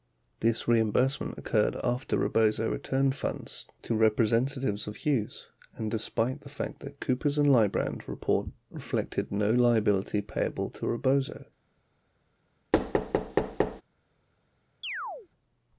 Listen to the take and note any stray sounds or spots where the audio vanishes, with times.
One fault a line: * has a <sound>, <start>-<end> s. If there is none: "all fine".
* has a thud, 12.7-13.8 s
* has a chirp, 14.8-15.3 s